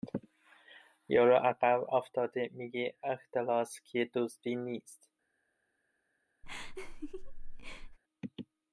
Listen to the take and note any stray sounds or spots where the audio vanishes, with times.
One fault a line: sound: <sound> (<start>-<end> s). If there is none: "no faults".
sound: laugh (6.4-8.0 s)